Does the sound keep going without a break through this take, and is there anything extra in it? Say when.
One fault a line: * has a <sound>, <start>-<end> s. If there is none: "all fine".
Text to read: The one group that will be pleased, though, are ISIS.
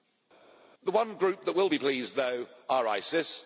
all fine